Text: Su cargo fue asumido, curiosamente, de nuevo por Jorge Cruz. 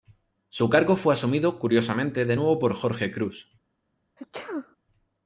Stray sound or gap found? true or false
true